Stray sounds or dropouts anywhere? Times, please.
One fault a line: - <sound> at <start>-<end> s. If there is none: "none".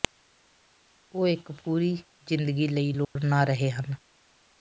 - dropout at 3.0-3.2 s